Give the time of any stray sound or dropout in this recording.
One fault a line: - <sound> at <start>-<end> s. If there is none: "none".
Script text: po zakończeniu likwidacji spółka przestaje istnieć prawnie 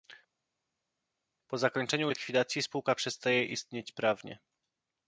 none